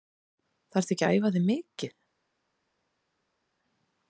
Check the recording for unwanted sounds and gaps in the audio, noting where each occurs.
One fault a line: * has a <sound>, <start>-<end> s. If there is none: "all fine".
all fine